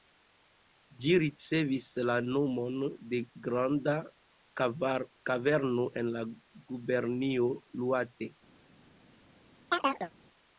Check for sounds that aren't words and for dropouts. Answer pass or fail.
fail